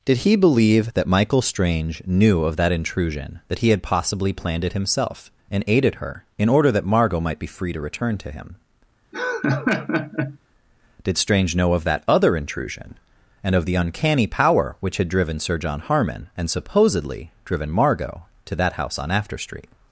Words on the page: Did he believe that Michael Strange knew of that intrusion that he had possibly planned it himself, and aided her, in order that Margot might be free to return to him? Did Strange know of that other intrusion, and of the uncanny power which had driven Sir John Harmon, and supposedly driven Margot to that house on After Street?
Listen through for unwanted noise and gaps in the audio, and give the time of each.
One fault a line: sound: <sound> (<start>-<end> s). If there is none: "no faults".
sound: laugh (9.1-10.4 s)